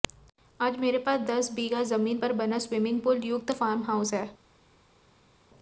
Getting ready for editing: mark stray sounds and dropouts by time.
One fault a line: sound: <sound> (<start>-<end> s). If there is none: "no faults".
no faults